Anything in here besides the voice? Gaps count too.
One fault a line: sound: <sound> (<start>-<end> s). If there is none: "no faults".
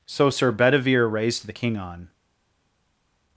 no faults